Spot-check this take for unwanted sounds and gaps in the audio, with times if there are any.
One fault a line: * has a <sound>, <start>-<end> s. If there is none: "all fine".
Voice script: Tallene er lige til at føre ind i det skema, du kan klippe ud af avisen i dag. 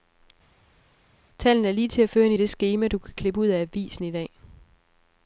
all fine